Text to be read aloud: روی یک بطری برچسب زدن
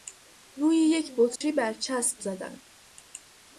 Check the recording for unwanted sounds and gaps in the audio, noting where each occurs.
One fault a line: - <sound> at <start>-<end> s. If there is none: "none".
- dropout at 1.4-1.4 s